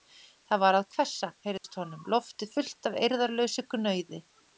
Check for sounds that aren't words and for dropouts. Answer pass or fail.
fail